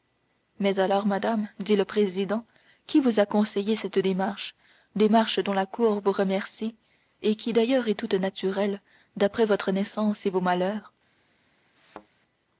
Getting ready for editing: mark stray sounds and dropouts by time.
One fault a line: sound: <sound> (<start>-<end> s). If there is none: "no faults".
sound: thud (11.8-12.1 s)